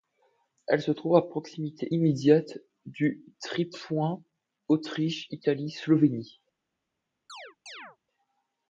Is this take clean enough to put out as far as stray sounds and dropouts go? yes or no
no